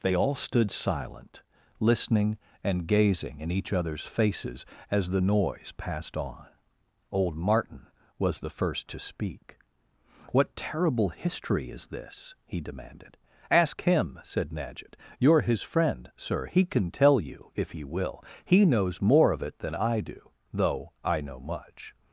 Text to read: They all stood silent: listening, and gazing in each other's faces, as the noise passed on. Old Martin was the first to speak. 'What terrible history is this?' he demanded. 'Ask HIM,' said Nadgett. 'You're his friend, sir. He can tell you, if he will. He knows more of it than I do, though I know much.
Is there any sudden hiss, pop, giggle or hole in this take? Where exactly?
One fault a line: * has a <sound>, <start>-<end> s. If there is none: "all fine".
all fine